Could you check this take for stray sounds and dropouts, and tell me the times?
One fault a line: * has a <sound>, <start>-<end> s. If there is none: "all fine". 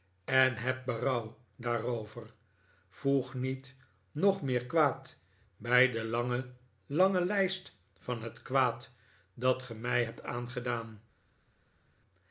all fine